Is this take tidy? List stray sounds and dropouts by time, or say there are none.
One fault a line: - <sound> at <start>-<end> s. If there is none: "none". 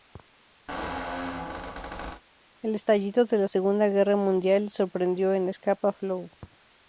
- squeak at 0.7-2.2 s